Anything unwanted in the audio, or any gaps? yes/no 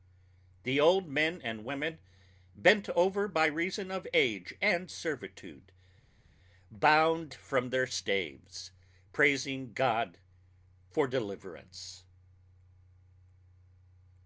no